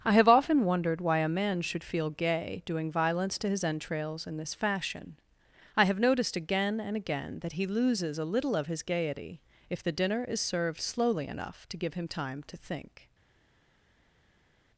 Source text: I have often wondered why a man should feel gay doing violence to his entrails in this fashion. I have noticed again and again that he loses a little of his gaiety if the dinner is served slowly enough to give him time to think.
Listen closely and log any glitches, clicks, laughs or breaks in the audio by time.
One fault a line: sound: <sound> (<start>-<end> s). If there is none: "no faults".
no faults